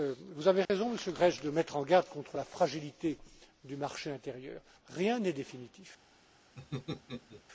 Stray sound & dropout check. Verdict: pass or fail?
fail